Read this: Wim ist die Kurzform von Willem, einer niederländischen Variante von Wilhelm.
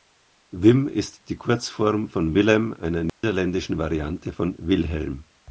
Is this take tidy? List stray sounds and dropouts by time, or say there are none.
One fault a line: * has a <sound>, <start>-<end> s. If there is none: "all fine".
* has a dropout, 3.1-3.2 s